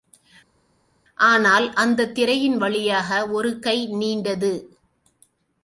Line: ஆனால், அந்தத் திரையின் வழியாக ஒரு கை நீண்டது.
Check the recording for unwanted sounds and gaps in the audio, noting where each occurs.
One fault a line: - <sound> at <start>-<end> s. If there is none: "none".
none